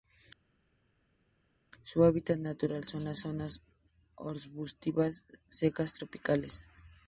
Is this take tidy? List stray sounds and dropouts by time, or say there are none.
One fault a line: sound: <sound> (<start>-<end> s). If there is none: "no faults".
no faults